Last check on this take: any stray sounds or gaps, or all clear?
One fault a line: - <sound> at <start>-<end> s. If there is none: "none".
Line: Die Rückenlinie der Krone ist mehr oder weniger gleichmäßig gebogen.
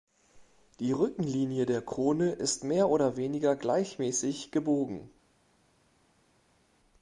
none